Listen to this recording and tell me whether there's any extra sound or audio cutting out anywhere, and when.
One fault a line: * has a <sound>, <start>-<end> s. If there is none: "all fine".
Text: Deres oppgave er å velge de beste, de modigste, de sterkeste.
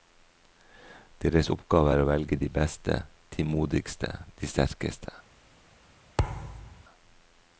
* has a thud, 6.2-6.8 s